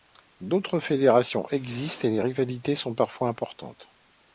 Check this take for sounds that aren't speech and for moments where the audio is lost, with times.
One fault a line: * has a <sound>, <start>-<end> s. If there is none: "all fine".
all fine